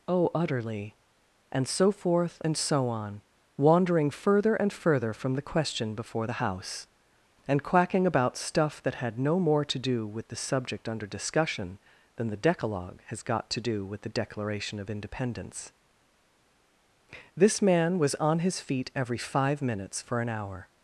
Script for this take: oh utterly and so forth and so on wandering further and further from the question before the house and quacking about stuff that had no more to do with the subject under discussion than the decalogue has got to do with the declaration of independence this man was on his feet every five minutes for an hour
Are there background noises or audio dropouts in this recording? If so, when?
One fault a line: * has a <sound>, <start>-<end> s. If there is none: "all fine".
all fine